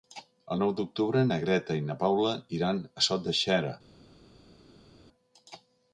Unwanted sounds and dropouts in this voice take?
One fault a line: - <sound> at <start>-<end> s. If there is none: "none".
none